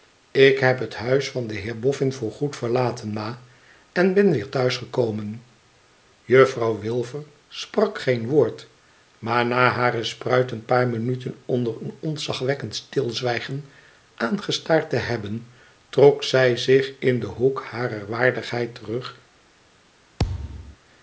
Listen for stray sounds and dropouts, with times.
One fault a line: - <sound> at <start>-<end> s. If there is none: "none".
- thud at 20.2-20.8 s